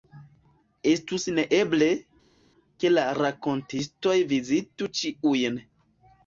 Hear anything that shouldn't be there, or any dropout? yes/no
no